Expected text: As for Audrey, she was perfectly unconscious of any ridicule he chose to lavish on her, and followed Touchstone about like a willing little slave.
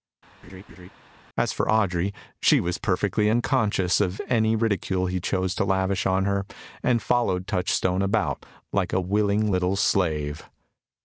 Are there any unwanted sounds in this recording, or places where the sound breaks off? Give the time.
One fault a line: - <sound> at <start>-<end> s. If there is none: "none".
- laugh at 0.4-0.9 s